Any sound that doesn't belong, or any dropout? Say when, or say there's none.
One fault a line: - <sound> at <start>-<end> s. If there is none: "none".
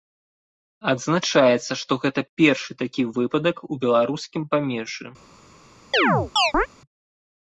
- chirp at 5.9-6.7 s